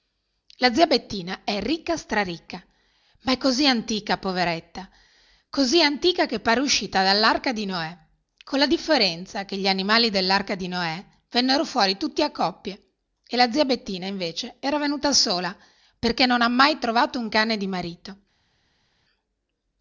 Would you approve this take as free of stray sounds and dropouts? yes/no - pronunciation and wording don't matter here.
yes